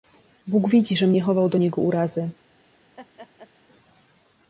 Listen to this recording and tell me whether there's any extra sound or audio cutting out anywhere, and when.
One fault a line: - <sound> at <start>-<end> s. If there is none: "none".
- laugh at 3.0-3.5 s